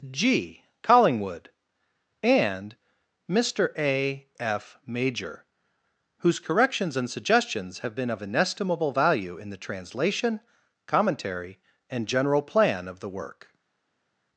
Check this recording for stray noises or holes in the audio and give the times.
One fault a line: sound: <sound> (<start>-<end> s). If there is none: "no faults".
no faults